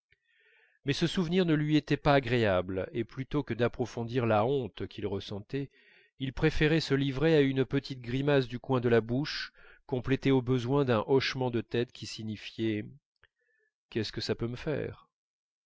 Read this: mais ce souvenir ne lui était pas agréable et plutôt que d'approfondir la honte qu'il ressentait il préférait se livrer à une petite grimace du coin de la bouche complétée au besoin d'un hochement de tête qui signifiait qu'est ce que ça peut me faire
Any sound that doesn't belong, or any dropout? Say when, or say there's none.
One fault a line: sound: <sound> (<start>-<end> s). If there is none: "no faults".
no faults